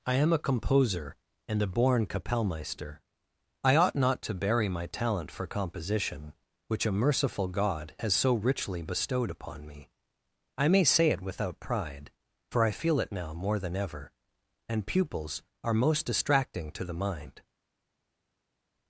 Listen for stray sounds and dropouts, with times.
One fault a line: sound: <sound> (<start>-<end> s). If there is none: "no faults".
no faults